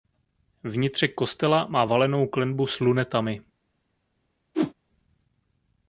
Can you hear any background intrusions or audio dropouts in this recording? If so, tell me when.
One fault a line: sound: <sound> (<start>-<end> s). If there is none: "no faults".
sound: whoosh (4.5-4.7 s)